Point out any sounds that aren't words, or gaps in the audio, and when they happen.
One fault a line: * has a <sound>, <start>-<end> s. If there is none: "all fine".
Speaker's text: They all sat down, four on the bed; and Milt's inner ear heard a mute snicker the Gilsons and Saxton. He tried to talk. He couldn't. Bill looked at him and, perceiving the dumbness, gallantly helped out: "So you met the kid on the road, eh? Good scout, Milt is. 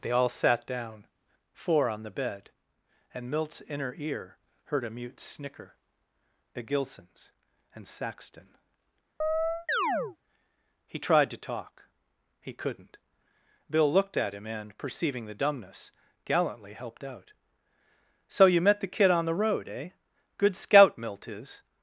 * has a chirp, 9.2-10.2 s